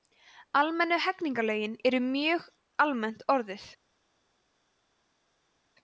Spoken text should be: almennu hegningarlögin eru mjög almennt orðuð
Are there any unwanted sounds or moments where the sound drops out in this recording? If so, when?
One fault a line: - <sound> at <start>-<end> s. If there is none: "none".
none